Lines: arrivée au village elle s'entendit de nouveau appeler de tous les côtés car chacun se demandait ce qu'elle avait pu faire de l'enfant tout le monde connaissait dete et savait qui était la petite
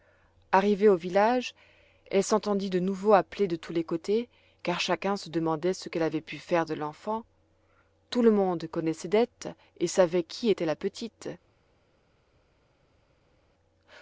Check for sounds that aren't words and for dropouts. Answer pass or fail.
pass